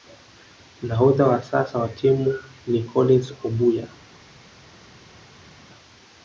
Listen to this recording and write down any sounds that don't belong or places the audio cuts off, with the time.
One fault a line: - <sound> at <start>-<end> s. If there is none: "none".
none